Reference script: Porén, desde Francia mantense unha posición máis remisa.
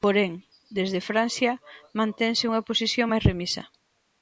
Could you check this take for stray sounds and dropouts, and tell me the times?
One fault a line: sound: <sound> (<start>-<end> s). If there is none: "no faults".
no faults